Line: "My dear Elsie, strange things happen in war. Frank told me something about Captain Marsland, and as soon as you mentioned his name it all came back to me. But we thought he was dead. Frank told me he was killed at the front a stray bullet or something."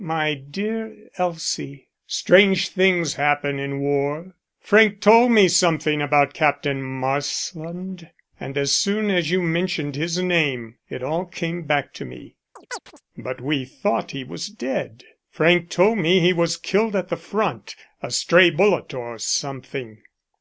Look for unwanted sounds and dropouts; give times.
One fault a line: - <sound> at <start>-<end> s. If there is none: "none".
- chirp at 12.6-13.0 s